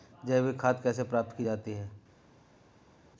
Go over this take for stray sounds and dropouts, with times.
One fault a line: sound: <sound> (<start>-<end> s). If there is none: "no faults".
no faults